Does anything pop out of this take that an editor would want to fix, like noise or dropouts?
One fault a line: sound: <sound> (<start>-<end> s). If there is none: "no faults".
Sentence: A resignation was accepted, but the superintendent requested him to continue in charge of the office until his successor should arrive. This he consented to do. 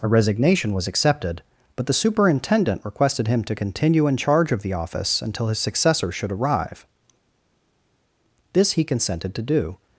no faults